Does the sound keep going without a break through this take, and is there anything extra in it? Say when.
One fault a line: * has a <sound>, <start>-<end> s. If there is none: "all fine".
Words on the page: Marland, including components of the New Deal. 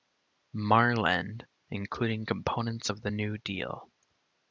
all fine